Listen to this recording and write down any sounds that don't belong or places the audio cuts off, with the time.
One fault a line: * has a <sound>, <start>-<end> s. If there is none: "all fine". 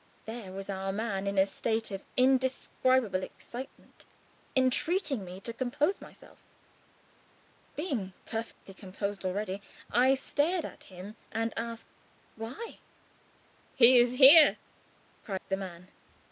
* has a dropout, 8.5-8.7 s
* has a dropout, 15.4-15.5 s